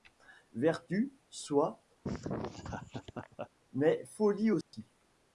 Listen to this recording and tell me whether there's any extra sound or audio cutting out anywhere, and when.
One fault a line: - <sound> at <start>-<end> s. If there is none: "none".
- laugh at 2.0-3.5 s
- dropout at 4.6-4.7 s